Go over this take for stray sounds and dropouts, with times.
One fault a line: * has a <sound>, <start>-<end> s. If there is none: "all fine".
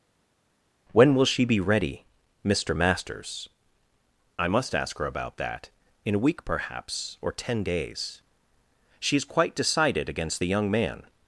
all fine